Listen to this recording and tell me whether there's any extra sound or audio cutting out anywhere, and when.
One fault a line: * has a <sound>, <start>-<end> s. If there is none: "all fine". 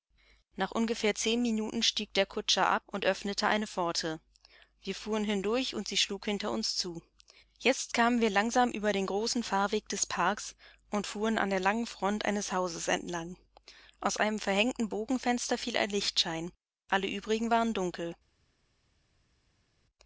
all fine